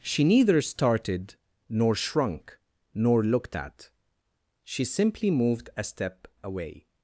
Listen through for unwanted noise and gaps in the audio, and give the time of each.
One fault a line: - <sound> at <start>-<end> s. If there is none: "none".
none